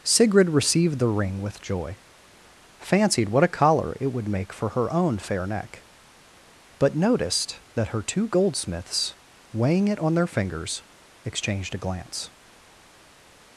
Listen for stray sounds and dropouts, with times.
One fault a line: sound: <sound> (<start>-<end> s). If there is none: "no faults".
no faults